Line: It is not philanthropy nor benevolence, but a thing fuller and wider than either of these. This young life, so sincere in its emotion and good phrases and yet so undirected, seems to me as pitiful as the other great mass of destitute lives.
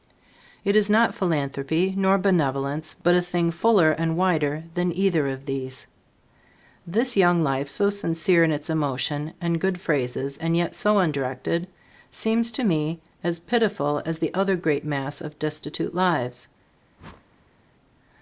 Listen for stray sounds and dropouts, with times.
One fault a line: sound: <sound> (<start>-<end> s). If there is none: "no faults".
sound: whoosh (17.0-17.6 s)